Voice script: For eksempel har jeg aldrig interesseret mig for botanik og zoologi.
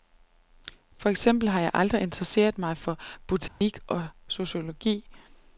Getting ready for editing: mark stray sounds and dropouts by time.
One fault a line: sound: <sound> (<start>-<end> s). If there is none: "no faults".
sound: dropout (3.5-3.6 s)